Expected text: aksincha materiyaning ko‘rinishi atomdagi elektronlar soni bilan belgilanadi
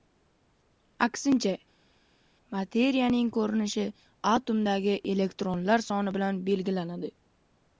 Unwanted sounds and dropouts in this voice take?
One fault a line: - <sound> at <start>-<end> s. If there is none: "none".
none